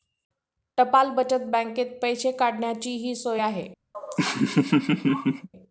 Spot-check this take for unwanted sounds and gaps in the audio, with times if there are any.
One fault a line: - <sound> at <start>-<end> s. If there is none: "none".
- laugh at 3.9-5.5 s